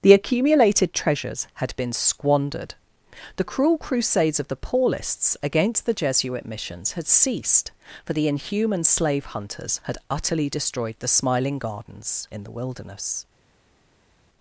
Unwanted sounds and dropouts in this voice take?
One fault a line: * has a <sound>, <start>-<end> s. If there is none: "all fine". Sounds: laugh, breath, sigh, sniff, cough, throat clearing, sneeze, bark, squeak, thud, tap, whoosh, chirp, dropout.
all fine